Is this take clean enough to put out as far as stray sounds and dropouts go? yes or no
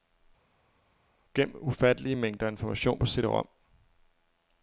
yes